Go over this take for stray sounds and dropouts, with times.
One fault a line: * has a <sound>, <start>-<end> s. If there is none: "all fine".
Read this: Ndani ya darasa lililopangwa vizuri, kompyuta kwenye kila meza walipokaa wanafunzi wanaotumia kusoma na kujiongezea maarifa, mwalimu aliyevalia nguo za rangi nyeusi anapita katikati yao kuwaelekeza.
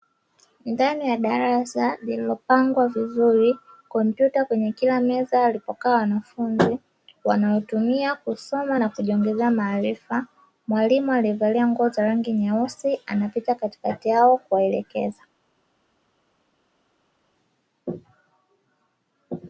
all fine